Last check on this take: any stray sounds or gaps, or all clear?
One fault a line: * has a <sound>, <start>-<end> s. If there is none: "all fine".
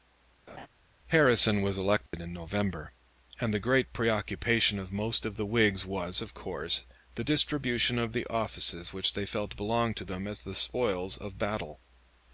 * has a laugh, 0.5-0.7 s
* has a dropout, 2.1-2.1 s